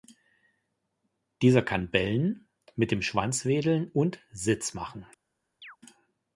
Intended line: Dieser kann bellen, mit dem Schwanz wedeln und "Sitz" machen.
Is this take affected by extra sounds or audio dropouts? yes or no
yes